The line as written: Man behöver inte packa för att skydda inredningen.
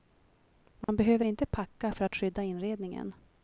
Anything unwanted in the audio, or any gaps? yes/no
yes